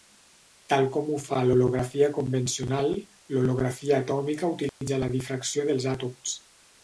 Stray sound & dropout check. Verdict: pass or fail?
fail